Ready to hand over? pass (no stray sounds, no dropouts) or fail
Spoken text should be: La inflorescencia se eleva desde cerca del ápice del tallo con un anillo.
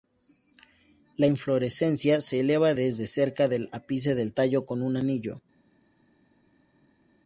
pass